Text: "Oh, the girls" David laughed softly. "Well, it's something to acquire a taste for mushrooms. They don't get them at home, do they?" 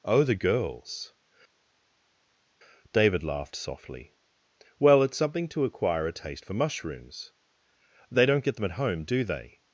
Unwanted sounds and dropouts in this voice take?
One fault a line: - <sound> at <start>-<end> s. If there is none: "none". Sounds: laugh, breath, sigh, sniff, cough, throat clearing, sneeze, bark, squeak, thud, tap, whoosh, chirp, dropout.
none